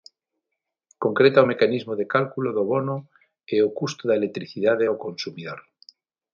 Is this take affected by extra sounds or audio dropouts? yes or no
no